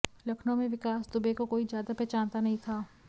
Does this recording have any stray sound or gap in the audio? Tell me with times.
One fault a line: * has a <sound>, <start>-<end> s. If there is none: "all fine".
all fine